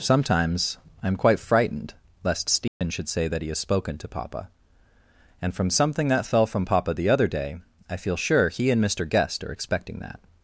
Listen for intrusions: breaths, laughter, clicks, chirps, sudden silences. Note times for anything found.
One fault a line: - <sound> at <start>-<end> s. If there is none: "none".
- dropout at 2.7-2.8 s